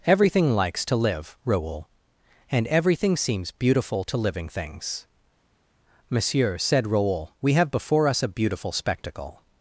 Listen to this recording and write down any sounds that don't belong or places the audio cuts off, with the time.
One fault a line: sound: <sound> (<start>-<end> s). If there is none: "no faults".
no faults